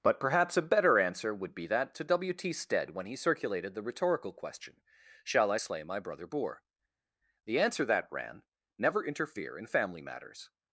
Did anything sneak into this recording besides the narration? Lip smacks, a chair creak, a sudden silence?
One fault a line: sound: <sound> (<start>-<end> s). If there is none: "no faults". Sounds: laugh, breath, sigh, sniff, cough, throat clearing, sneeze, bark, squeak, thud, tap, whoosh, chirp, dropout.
no faults